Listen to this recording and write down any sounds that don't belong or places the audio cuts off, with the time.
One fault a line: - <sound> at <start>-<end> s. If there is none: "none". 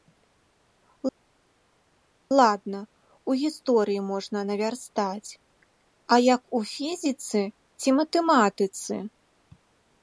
none